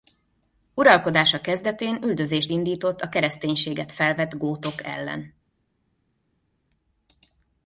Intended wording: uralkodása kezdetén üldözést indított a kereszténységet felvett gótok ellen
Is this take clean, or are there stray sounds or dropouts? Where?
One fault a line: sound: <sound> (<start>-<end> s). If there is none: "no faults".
no faults